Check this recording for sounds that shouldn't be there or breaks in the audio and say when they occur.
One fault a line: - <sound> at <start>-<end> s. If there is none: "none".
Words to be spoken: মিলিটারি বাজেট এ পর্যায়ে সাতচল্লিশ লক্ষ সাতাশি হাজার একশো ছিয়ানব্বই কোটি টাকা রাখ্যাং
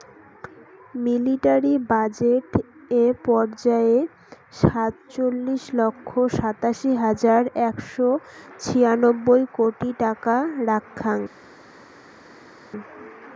none